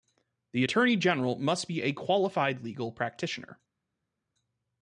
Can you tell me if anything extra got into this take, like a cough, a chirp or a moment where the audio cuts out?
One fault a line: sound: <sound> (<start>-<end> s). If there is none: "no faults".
no faults